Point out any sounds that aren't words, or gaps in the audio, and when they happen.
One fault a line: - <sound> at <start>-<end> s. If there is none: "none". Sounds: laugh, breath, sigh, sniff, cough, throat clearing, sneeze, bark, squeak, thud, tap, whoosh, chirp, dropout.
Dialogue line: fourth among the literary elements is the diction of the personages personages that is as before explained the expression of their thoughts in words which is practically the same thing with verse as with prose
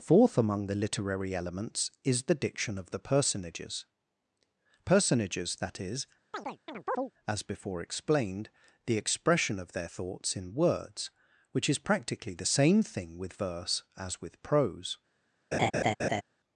- chirp at 6.3-7.1 s
- laugh at 15.5-16.2 s